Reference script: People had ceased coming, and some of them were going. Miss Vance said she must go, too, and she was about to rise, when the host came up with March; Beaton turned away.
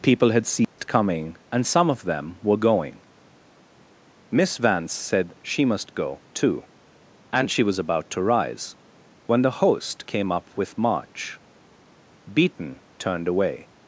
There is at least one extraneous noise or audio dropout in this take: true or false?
true